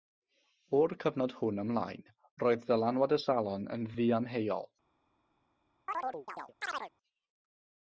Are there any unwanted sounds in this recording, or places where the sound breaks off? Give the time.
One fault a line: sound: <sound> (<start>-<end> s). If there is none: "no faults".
sound: chirp (5.9-6.9 s)